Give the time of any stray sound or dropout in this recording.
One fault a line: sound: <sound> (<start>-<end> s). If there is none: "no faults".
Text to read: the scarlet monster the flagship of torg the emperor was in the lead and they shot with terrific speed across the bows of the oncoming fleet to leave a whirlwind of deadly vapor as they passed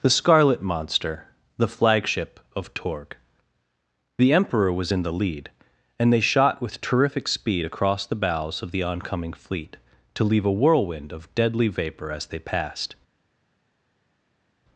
no faults